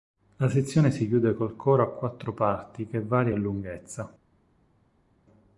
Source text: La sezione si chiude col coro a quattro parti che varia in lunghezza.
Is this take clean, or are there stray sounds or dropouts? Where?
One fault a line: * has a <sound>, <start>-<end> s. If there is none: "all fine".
all fine